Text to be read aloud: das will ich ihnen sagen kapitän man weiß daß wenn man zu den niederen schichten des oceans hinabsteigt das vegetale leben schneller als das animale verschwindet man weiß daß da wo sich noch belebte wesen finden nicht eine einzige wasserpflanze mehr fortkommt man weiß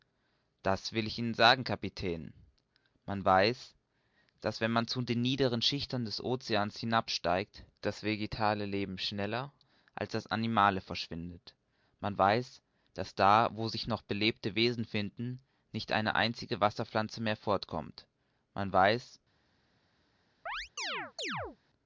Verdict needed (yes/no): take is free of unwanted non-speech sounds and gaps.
no